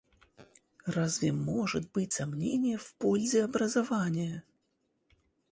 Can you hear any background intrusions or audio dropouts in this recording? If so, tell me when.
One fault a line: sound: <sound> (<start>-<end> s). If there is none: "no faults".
no faults